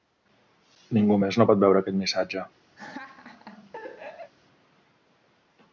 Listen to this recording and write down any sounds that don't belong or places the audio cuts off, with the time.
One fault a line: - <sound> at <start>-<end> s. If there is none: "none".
- laugh at 2.8-4.3 s